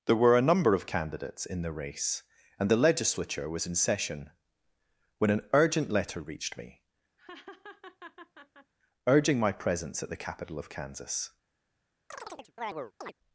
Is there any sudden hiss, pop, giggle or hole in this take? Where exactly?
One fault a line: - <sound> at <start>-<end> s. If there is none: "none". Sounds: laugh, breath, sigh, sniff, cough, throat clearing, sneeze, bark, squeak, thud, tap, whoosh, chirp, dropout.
- laugh at 7.2-8.7 s
- chirp at 12.1-13.1 s